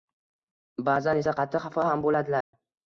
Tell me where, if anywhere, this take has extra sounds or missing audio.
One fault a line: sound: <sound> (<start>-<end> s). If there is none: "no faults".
sound: dropout (2.4-2.5 s)